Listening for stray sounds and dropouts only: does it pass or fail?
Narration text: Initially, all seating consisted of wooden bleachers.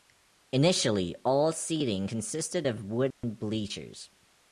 fail